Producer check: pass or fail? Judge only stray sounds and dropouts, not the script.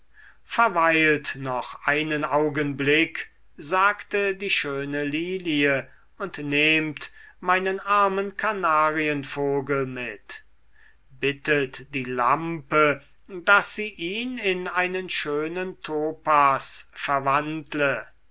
pass